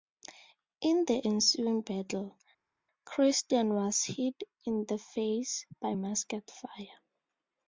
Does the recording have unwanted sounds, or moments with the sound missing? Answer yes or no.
no